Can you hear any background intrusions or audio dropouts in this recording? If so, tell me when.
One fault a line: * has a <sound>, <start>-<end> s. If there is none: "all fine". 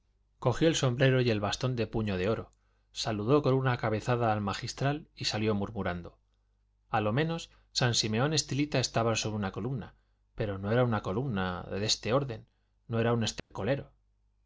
* has a dropout, 13.4-13.5 s